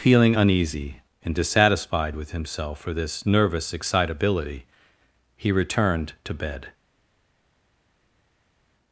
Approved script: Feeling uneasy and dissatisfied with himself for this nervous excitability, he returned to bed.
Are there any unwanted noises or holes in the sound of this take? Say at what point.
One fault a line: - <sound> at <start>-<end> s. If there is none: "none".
none